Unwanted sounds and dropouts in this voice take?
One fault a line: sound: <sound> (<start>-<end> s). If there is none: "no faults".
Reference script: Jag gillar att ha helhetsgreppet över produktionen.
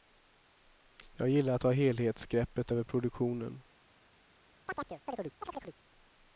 sound: chirp (4.7-5.8 s)